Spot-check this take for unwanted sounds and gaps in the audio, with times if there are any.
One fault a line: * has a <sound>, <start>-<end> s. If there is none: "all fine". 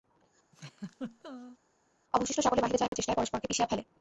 * has a laugh, 0.5-1.6 s
* has a dropout, 2.9-2.9 s